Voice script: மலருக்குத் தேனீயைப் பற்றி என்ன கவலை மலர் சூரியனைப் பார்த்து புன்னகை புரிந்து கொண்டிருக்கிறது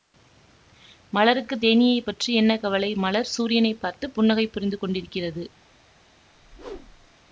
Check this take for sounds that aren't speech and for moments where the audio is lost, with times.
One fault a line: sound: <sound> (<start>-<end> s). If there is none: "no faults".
sound: whoosh (6.3-7.1 s)